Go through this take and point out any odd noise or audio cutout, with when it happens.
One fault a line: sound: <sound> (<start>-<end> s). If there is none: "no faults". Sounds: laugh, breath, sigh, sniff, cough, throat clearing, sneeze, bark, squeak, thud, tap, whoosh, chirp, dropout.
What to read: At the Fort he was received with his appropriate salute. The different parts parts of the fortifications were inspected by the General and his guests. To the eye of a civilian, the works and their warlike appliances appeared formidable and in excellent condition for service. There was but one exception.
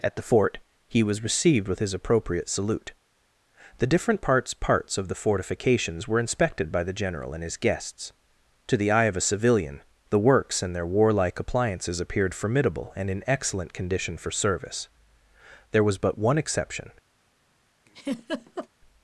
sound: laugh (17.9-18.7 s)